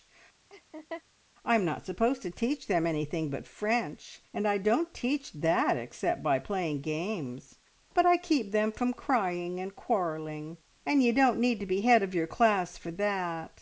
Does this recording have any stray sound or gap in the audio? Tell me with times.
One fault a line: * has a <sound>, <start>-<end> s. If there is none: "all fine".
* has a laugh, 0.5-1.0 s